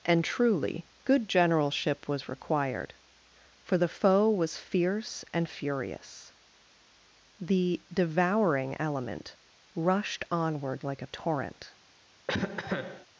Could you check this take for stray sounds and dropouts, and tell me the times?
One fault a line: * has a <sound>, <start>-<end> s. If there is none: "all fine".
* has a cough, 12.3-13.1 s